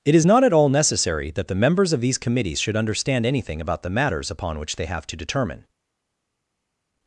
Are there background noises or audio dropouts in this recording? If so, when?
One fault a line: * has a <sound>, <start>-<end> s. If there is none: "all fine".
all fine